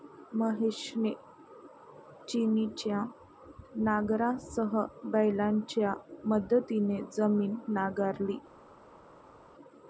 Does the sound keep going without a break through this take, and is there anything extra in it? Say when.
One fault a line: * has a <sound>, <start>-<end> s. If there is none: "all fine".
all fine